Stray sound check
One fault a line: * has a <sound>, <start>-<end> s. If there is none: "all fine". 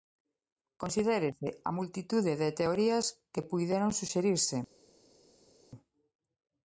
all fine